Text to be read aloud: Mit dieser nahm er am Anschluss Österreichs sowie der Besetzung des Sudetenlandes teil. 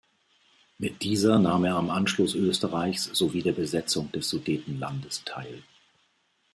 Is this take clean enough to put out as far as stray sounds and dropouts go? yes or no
yes